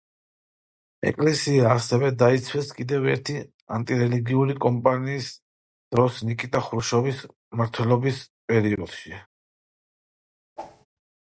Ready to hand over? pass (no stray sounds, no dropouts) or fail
fail